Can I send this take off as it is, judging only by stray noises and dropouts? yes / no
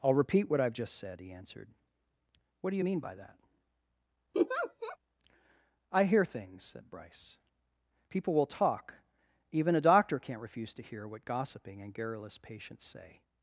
no